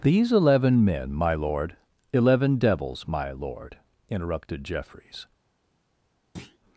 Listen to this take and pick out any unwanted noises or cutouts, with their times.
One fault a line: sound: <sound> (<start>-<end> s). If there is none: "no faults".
sound: thud (6.4-6.6 s)